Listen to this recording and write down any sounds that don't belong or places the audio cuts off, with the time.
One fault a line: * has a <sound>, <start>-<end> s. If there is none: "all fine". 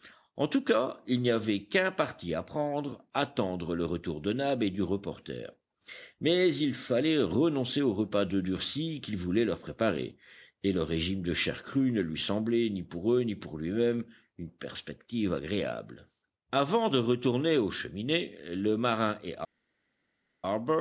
all fine